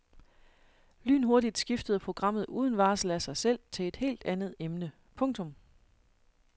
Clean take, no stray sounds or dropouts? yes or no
yes